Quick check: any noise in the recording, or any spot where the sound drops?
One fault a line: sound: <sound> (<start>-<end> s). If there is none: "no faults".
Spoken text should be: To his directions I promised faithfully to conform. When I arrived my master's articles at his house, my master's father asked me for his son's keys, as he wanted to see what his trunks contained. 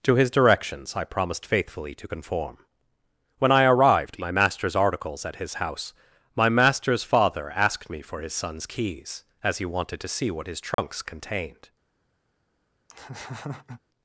sound: dropout (10.7-10.8 s)
sound: laugh (12.9-13.8 s)